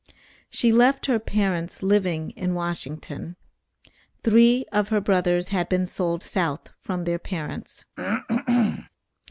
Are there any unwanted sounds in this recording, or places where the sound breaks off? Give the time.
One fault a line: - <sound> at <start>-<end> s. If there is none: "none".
- throat clearing at 8.0-8.9 s